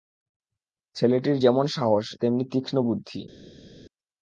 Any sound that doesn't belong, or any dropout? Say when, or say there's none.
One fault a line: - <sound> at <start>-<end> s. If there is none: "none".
none